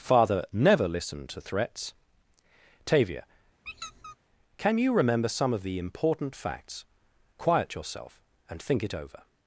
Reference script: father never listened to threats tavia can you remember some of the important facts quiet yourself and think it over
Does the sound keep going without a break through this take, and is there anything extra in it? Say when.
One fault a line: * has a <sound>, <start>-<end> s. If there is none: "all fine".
* has a squeak, 3.7-4.2 s